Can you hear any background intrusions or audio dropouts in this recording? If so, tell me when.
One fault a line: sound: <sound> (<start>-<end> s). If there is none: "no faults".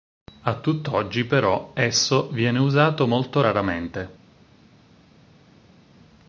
no faults